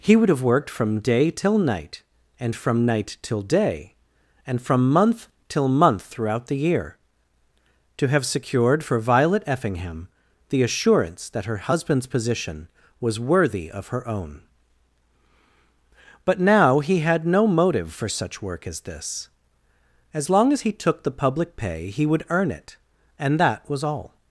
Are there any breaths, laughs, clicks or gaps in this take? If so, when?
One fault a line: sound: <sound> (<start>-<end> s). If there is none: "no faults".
no faults